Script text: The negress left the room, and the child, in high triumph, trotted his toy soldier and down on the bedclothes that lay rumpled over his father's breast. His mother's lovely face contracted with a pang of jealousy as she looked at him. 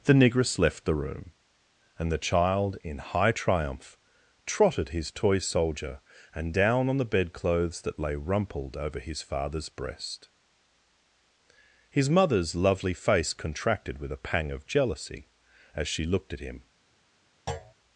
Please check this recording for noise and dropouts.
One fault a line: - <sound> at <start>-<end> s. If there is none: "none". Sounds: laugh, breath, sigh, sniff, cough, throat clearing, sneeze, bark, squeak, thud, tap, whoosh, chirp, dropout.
- thud at 17.5-17.7 s